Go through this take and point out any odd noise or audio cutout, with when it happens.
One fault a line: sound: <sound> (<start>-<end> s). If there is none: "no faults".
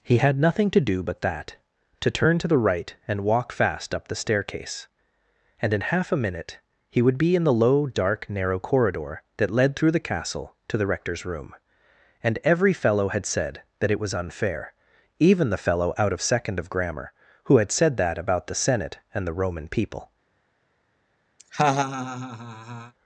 sound: laugh (21.4-22.9 s)